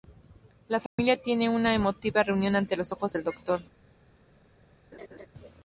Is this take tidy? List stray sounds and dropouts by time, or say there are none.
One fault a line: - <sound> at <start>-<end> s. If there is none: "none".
- dropout at 0.9-1.0 s
- laugh at 4.9-5.3 s